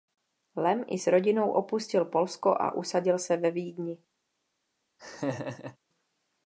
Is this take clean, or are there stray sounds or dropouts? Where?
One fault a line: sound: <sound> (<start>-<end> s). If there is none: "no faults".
sound: laugh (5.0-5.8 s)